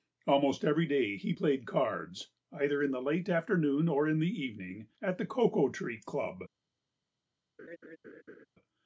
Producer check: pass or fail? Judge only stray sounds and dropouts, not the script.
fail